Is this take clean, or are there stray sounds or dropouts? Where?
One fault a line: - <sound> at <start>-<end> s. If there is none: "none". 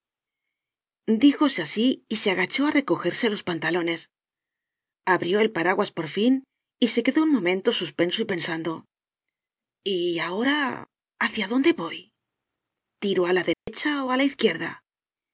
- dropout at 13.5-13.7 s